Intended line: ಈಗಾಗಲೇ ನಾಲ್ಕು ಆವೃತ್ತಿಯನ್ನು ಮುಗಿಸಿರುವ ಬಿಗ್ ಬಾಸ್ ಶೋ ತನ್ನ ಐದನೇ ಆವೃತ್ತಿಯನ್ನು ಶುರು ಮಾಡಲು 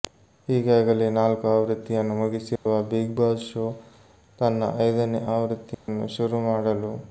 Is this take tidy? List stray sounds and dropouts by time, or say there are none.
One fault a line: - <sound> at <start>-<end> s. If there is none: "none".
- dropout at 2.6-2.7 s
- dropout at 5.7-5.9 s